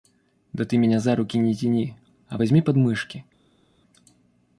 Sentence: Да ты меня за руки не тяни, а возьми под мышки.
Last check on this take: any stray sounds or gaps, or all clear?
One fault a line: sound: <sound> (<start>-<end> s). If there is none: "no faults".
no faults